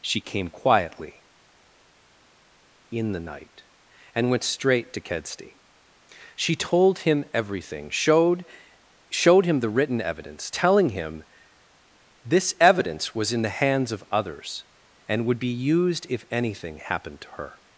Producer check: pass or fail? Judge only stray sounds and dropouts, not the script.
pass